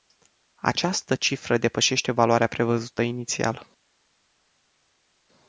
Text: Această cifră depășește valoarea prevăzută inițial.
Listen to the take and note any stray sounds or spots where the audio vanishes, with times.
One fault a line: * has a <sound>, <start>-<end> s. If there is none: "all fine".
all fine